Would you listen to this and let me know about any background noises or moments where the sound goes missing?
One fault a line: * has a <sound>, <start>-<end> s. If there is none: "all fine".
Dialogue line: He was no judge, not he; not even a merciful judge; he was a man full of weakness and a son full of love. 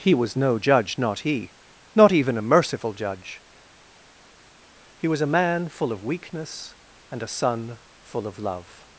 all fine